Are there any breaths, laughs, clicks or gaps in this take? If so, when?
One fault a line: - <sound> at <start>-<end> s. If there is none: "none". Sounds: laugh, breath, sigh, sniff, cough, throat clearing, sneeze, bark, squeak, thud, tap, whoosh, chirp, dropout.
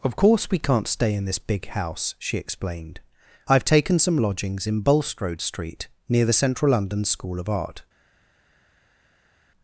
none